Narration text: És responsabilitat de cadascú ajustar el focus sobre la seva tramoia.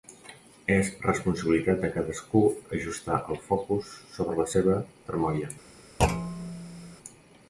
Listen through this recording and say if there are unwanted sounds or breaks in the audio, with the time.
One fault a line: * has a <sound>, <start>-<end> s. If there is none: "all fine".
* has a thud, 6.0-7.0 s